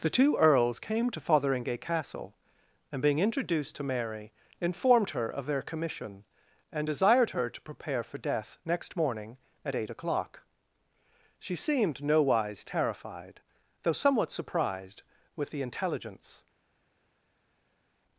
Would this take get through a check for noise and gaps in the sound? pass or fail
pass